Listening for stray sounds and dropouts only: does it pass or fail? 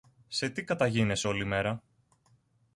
pass